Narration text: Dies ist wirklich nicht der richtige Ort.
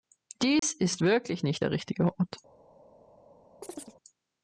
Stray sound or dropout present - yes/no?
yes